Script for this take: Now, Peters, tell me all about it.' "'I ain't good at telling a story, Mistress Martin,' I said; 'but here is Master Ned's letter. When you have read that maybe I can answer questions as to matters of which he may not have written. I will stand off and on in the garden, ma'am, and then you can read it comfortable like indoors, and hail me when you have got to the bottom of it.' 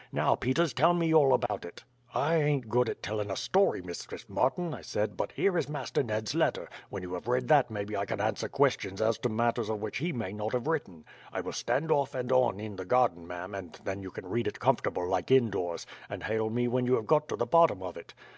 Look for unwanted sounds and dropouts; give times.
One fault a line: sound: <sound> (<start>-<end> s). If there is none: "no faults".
sound: dropout (1.5-1.5 s)